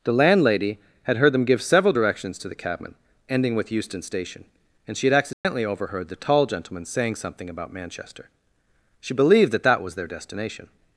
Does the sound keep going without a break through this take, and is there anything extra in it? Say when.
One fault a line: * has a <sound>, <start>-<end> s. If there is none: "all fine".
* has a dropout, 5.3-5.4 s